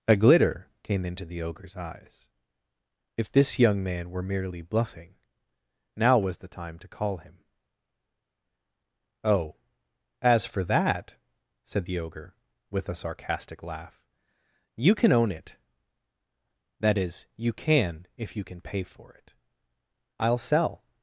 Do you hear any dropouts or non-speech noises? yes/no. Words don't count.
no